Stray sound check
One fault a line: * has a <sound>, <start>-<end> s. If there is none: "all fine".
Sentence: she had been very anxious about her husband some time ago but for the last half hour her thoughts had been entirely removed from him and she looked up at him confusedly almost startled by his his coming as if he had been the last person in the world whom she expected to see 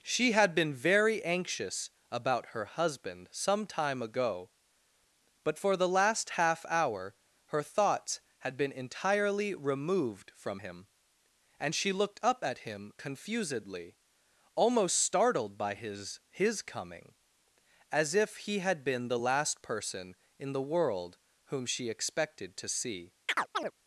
* has a chirp, 23.3-23.7 s